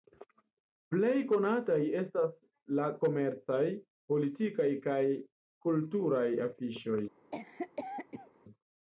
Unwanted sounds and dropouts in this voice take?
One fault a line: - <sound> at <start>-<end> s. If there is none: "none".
- cough at 7.3-8.3 s